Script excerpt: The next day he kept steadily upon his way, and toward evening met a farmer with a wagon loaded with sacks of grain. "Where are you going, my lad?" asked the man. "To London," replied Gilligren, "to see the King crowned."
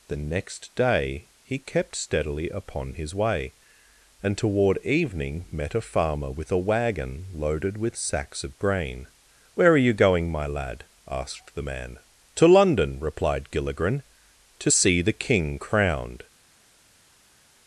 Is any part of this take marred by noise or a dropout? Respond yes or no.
no